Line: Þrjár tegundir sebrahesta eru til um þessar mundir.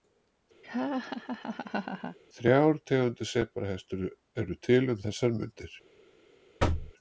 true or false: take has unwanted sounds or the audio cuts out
true